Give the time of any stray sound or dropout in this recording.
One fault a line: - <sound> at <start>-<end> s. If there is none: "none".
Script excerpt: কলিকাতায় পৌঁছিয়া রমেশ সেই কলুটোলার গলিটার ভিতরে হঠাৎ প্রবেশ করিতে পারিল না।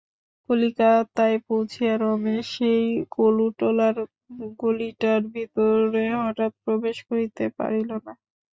none